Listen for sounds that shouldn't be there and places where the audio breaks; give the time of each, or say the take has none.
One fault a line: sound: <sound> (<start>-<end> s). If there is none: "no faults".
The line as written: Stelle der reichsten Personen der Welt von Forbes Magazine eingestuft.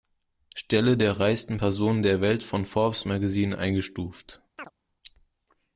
sound: chirp (4.6-4.7 s)